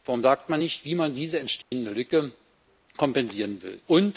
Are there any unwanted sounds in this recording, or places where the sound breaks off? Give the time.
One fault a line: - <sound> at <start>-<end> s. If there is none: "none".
- dropout at 1.6-1.7 s